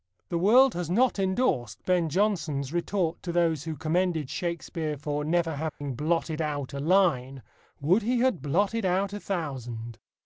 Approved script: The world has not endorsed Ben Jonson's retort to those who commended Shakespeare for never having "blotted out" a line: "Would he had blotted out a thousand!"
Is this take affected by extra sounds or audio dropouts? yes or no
yes